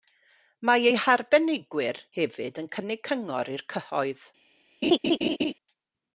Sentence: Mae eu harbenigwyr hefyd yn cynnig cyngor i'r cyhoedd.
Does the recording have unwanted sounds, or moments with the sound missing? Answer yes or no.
yes